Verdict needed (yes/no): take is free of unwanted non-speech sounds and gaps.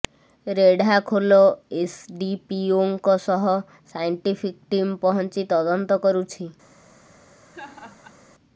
no